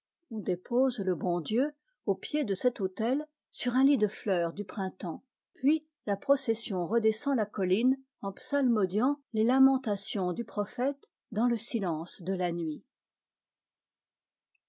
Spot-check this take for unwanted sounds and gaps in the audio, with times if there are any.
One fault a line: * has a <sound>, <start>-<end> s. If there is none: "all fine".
all fine